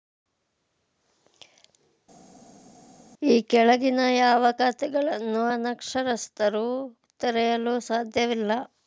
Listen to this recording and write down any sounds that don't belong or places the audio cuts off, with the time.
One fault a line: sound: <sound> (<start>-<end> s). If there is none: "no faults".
no faults